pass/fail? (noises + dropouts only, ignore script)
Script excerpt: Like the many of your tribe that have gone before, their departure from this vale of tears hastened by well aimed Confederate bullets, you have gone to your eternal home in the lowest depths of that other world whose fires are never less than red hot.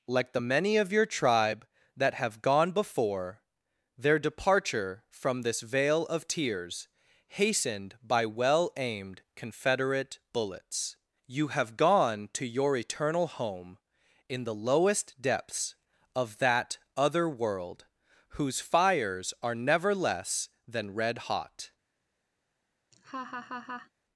fail